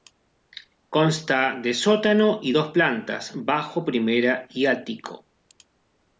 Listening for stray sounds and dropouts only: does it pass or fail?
pass